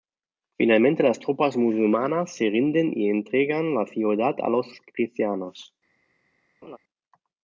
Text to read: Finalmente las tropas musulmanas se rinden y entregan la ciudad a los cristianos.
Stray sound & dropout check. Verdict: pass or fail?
fail